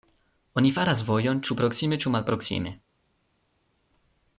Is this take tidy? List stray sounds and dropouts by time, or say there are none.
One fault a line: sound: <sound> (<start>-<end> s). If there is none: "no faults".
no faults